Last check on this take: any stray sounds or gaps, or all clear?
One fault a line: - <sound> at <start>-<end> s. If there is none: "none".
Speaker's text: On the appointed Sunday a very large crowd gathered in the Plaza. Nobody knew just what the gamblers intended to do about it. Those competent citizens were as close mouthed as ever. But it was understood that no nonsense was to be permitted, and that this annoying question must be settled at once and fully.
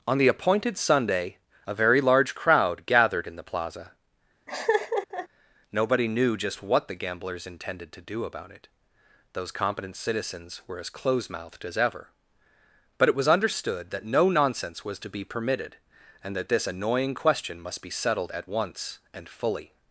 - laugh at 4.5-5.3 s